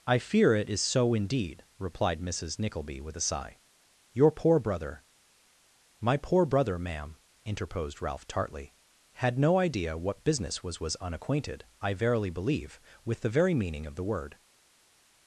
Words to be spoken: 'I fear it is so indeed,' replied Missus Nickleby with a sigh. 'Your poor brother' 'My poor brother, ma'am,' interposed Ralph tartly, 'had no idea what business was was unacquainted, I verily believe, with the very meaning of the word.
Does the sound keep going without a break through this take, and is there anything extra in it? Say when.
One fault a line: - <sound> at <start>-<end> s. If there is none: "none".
none